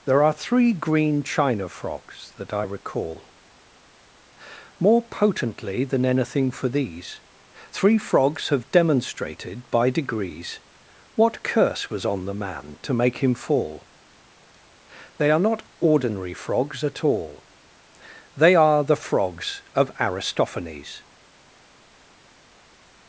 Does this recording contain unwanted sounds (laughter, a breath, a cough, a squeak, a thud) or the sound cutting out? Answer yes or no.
no